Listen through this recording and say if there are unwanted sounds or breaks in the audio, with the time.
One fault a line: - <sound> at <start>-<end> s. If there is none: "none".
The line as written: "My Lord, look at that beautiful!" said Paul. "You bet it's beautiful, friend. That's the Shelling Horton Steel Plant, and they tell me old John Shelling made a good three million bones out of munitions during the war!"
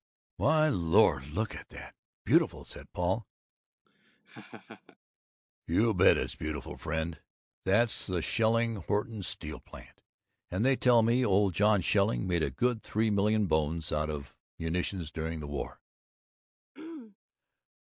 - laugh at 3.8-5.0 s
- throat clearing at 16.7-17.2 s